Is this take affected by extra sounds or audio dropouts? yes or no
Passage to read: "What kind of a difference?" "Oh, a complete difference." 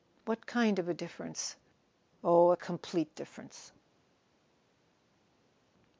no